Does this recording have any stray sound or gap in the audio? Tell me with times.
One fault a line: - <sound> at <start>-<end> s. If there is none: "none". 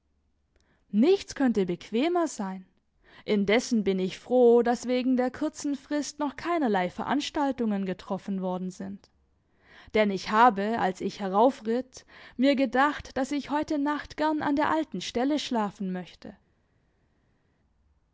none